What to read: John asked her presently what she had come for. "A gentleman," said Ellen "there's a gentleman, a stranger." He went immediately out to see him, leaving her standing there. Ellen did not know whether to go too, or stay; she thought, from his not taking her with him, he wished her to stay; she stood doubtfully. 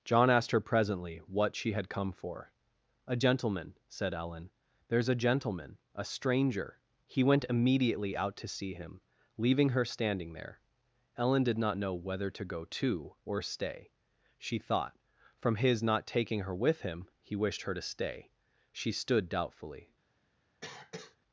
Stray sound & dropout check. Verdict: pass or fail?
fail